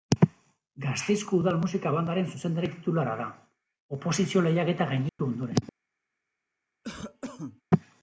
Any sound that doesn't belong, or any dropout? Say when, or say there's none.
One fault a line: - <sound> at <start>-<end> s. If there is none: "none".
- dropout at 5.1-5.2 s
- cough at 6.8-7.6 s